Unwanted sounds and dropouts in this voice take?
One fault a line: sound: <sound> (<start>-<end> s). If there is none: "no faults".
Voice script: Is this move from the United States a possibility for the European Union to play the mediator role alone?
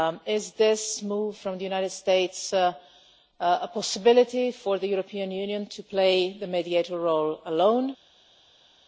no faults